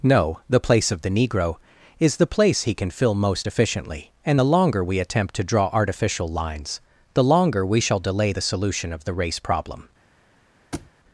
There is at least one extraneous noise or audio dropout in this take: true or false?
true